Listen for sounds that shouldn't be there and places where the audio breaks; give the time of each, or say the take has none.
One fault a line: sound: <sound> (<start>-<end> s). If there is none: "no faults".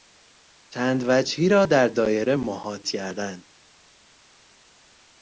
no faults